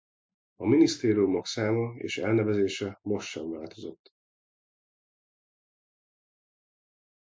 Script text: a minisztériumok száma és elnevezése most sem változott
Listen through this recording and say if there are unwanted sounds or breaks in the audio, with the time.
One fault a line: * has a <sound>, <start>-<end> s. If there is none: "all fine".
all fine